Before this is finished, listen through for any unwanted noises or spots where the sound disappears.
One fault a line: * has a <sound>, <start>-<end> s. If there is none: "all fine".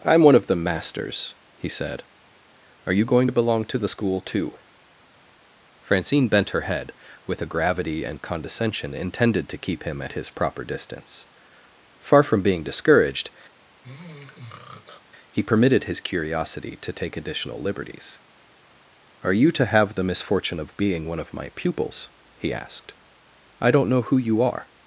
* has a throat clearing, 13.5-15.0 s